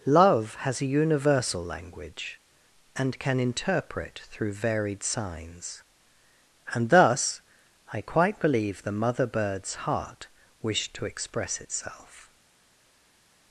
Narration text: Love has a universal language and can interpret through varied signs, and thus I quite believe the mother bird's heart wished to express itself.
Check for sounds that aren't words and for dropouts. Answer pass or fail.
pass